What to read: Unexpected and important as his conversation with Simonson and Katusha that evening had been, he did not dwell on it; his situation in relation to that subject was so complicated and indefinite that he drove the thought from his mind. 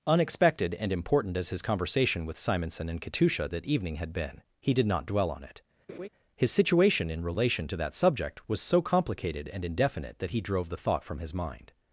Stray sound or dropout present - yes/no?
yes